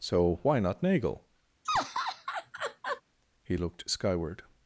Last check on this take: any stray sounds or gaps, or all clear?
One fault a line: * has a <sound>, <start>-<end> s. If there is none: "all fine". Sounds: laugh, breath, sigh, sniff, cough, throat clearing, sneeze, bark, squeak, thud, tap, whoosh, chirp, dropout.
* has a laugh, 1.6-3.0 s